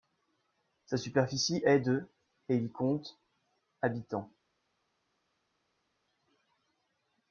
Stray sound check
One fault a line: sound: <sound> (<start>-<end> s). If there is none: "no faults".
no faults